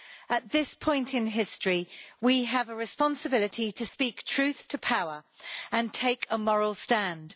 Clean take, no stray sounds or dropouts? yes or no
no